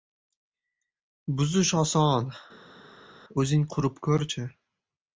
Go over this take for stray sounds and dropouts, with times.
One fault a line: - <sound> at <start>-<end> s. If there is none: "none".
none